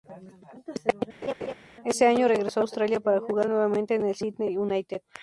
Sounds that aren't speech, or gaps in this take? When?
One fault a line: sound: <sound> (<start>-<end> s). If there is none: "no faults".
sound: laugh (1.2-1.5 s)